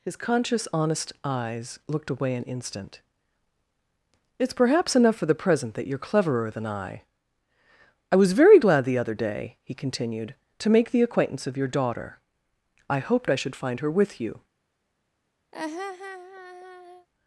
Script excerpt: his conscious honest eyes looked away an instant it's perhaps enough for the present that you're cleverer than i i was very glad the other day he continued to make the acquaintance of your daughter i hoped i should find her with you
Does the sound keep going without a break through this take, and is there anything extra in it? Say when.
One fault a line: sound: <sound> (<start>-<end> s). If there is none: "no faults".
sound: laugh (15.5-17.1 s)